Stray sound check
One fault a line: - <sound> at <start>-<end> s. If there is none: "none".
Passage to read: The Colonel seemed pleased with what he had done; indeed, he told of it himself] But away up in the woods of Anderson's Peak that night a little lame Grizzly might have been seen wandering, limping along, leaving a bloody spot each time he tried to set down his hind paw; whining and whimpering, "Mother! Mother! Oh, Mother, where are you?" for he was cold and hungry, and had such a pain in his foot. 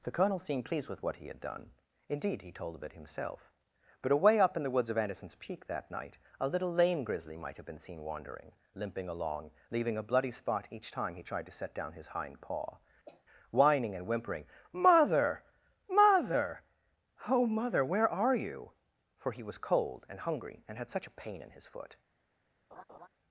- cough at 13.1-13.2 s
- laugh at 22.7-23.1 s